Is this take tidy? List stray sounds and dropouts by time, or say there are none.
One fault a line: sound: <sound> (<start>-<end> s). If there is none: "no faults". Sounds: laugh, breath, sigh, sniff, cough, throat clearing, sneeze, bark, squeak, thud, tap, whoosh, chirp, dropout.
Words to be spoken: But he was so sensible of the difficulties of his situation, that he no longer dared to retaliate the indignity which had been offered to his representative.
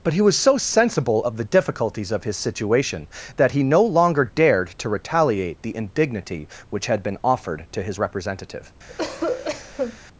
sound: cough (8.9-10.0 s)